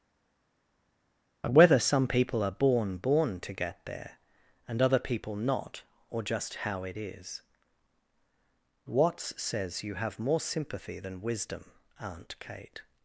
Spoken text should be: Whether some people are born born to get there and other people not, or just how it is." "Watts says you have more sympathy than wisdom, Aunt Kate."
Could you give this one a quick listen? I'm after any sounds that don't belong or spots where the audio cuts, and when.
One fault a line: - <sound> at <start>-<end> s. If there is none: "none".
none